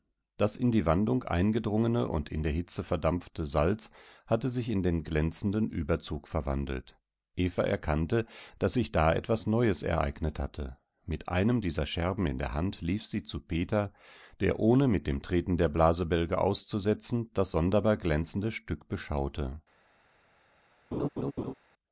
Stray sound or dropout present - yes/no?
yes